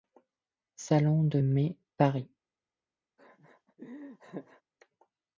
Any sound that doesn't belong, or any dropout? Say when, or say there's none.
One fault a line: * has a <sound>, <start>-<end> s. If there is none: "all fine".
* has a laugh, 3.2-4.6 s